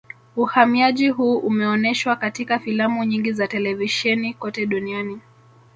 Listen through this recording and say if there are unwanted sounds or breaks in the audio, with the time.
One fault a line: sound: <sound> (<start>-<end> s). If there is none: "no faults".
no faults